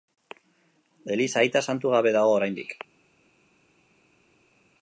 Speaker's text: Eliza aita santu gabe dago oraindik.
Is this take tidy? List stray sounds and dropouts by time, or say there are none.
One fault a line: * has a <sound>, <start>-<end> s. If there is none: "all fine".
all fine